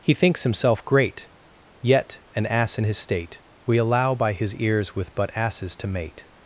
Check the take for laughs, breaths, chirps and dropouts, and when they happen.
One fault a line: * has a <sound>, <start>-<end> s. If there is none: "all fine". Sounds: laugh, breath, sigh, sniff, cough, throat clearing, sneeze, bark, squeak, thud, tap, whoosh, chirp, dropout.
all fine